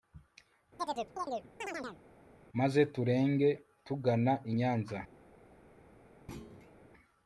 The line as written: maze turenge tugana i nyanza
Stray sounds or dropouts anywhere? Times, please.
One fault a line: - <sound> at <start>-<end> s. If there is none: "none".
- chirp at 0.8-2.0 s
- thud at 6.3-6.8 s